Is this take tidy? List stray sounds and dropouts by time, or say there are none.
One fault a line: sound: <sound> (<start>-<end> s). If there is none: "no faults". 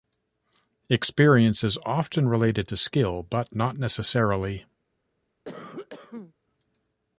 sound: cough (5.4-6.3 s)